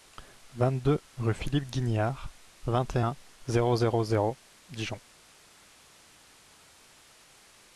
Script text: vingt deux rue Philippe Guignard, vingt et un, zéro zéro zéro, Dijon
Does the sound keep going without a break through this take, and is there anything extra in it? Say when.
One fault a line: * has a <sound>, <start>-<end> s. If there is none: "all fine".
all fine